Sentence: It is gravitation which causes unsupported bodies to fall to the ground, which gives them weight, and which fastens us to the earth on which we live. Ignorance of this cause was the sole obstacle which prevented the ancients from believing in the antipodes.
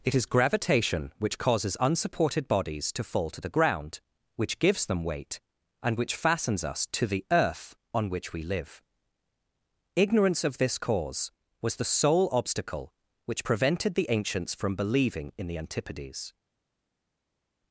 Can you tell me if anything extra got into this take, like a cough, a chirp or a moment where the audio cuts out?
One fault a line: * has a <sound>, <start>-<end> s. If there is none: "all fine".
all fine